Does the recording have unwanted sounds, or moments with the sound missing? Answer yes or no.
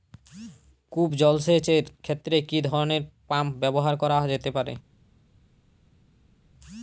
no